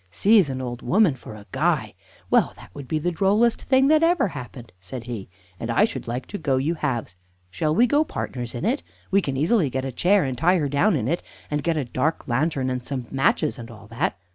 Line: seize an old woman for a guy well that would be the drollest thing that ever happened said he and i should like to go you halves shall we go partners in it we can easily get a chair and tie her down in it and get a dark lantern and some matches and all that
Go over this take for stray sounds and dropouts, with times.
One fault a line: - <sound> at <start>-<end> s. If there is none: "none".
none